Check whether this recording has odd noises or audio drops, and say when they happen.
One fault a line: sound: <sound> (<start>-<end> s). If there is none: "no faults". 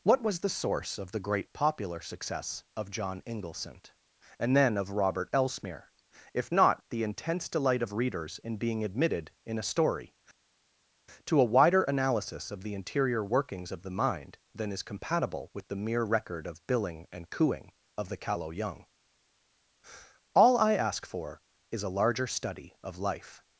no faults